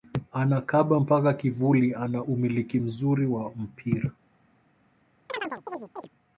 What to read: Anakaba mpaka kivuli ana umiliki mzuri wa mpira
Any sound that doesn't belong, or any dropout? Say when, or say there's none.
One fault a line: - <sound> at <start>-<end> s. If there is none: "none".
- chirp at 5.3-6.1 s